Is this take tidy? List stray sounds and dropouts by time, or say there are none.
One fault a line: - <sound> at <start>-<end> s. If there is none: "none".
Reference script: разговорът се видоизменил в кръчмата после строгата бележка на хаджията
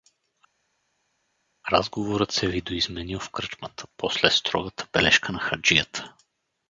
none